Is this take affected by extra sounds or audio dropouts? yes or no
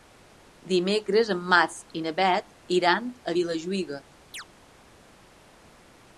yes